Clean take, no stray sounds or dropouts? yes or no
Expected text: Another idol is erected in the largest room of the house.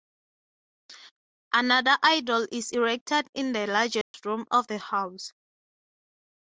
no